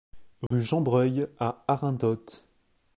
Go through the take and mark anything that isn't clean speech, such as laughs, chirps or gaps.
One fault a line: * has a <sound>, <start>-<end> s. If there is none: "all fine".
* has a dropout, 0.5-0.5 s